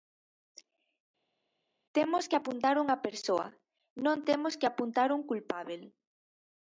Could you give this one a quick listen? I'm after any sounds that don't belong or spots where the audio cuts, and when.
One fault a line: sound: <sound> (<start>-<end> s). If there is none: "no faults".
no faults